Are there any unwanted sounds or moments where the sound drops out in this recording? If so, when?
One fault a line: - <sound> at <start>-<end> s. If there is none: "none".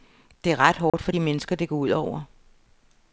- dropout at 0.9-0.9 s